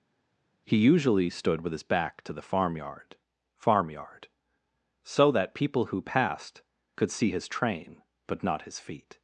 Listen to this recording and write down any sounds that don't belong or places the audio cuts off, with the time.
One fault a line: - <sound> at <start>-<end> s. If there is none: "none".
none